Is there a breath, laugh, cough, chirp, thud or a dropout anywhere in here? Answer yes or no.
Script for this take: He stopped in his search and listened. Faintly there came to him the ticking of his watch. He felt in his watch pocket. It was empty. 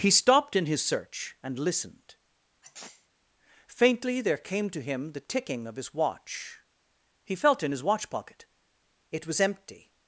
yes